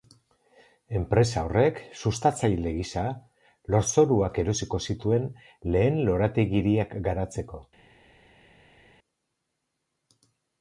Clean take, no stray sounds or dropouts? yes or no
yes